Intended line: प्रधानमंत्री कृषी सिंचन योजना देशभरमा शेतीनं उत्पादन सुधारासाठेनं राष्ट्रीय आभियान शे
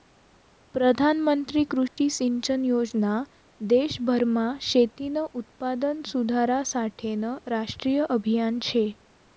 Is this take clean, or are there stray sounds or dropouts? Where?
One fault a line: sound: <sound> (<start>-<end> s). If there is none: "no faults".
sound: dropout (1.9-2.0 s)